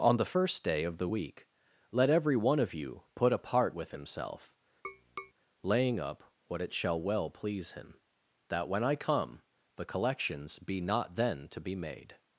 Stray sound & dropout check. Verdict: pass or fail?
fail